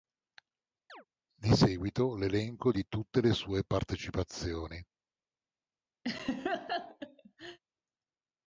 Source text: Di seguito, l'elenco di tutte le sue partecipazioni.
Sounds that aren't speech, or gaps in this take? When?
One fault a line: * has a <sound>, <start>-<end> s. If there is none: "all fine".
* has a chirp, 0.9-1.0 s
* has a laugh, 6.0-7.6 s